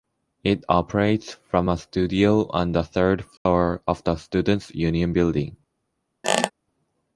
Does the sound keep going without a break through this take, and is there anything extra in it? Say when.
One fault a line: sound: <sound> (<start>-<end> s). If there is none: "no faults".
sound: dropout (3.4-3.5 s)
sound: squeak (6.2-6.5 s)